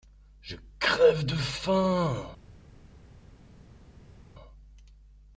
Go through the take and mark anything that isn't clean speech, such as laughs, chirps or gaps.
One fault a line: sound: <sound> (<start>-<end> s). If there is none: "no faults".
no faults